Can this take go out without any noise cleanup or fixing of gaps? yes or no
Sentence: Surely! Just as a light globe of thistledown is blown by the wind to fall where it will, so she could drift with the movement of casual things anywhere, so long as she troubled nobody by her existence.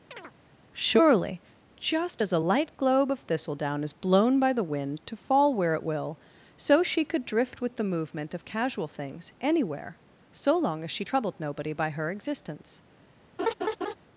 no